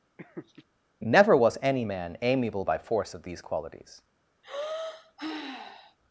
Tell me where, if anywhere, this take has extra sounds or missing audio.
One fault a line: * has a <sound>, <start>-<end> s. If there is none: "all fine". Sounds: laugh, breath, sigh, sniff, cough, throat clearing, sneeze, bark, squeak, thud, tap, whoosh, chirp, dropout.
* has a laugh, 0.2-0.7 s
* has a sigh, 4.4-6.0 s